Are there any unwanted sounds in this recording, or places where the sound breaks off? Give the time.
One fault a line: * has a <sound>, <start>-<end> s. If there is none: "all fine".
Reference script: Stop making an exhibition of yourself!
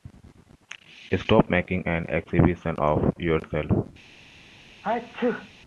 * has a sneeze, 4.8-5.5 s